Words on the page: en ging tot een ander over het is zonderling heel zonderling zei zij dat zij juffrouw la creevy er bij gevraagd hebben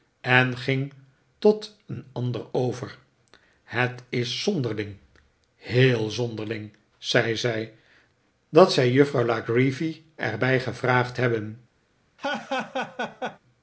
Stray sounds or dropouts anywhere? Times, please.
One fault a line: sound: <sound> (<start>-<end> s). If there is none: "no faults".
sound: laugh (12.2-13.4 s)